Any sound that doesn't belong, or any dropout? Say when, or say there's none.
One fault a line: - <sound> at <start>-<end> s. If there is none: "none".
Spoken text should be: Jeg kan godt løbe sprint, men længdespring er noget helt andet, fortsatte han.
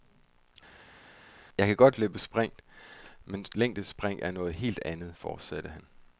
none